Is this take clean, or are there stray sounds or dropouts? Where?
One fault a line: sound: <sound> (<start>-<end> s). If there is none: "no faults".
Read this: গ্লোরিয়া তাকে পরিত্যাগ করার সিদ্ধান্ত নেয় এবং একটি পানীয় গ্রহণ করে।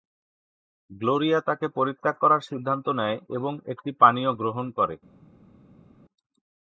no faults